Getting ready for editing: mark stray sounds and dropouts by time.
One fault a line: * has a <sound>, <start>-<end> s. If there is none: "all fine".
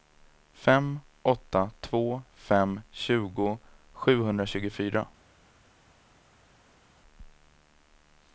all fine